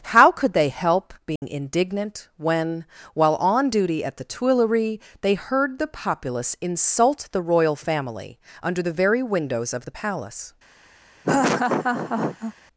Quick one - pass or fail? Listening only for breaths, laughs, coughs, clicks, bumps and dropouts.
fail